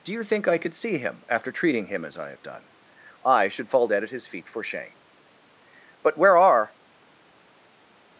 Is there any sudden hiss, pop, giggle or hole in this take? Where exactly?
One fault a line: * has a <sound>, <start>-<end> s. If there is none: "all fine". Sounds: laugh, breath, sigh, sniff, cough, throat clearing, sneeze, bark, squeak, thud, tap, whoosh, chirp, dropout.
all fine